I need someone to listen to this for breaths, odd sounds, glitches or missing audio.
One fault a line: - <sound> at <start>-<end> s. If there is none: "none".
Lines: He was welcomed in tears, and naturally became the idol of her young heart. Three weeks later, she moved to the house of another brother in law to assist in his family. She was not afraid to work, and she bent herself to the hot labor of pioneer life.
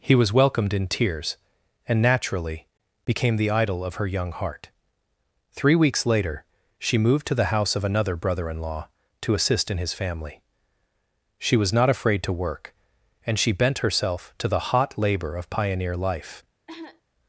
- cough at 16.7-17.0 s